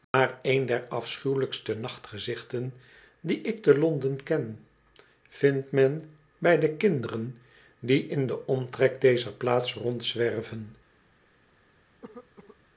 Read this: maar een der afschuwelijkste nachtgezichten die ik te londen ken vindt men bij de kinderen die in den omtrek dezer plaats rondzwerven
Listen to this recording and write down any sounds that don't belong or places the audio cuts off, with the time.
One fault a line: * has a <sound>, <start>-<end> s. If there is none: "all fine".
* has a dropout, 0.0-0.1 s
* has a cough, 12.0-12.6 s